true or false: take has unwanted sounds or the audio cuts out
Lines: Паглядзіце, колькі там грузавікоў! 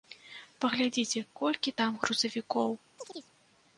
true